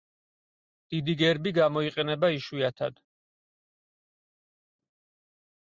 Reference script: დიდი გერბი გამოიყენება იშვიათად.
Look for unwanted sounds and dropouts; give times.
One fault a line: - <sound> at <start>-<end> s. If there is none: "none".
none